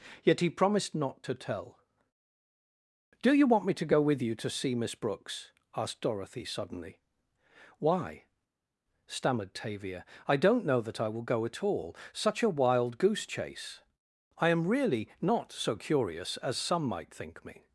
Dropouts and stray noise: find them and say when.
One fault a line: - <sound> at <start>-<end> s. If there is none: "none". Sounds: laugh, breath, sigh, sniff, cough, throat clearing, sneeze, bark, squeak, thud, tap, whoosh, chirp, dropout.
none